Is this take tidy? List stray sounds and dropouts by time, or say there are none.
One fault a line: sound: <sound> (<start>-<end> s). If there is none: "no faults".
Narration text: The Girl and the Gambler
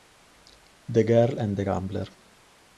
no faults